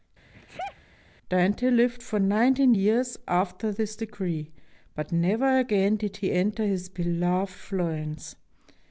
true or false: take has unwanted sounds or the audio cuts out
true